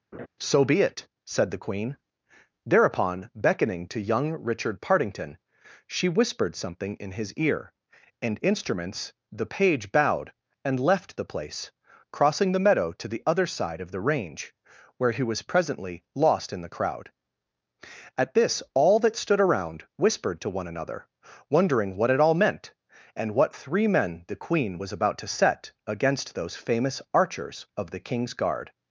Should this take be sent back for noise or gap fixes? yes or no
yes